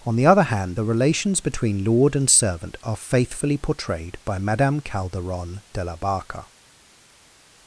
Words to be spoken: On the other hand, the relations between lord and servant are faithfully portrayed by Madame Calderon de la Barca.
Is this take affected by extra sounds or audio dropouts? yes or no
no